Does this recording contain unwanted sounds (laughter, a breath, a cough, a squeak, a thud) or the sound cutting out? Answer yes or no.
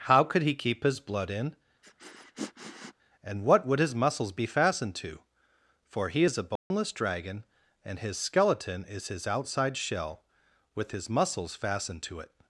yes